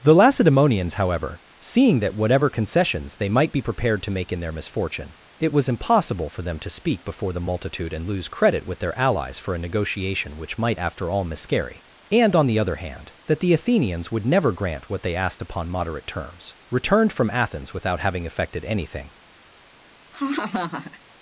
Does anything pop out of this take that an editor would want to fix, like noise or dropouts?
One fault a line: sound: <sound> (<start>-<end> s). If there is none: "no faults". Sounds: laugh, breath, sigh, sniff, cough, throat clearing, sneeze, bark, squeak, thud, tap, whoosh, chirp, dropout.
sound: laugh (20.1-21.0 s)